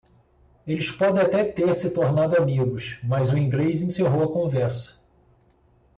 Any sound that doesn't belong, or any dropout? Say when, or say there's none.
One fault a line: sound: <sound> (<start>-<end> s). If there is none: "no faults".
no faults